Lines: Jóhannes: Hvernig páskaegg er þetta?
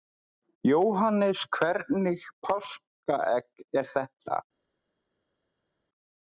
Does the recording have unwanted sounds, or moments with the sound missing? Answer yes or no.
no